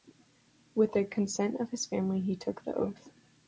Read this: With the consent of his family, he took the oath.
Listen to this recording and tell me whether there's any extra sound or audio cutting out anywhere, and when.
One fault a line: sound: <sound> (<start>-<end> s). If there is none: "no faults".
no faults